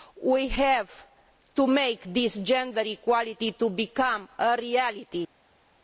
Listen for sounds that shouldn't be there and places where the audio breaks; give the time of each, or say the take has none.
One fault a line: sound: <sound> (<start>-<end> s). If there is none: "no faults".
no faults